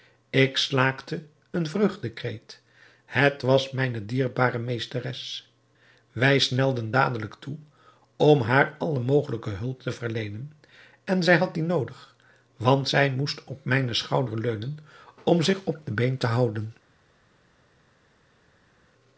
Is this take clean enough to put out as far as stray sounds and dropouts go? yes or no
yes